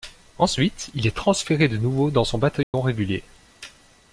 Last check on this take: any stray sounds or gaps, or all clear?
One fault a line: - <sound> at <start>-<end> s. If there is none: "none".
- dropout at 2.6-2.7 s